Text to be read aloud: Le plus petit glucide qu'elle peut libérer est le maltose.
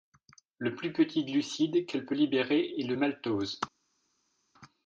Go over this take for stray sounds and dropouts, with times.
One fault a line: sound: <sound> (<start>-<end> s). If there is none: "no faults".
no faults